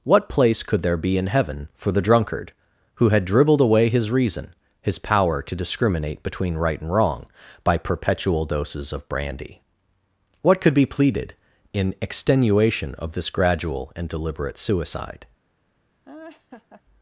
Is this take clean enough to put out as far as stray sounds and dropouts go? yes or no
no